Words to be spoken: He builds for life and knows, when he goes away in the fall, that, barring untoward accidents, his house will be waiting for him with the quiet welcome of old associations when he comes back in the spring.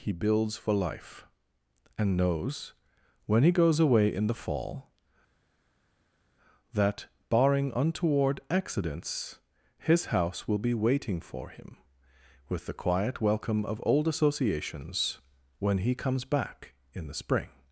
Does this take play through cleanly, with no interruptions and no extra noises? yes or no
yes